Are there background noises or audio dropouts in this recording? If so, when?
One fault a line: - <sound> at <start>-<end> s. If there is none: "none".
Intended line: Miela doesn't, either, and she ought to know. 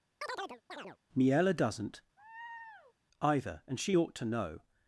- chirp at 0.2-1.0 s
- laugh at 2.2-2.9 s